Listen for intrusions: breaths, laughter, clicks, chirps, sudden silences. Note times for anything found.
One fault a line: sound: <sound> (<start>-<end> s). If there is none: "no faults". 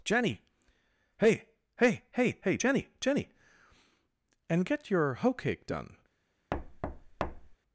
sound: thud (6.5-7.6 s)